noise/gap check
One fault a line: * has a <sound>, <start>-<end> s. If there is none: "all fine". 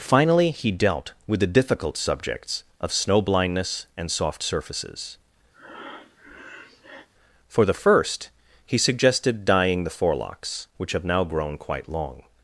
* has a breath, 5.5-7.1 s